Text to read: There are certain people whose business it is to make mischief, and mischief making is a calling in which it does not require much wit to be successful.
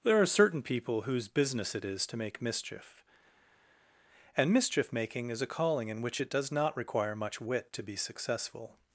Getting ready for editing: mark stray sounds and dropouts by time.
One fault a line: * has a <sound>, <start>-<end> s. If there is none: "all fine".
all fine